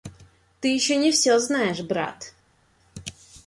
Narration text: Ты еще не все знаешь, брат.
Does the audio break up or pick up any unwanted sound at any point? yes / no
no